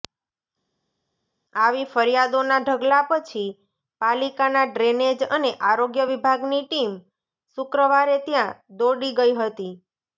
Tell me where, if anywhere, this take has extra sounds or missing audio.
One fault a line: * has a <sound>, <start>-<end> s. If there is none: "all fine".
all fine